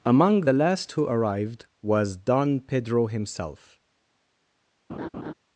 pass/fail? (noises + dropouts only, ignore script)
fail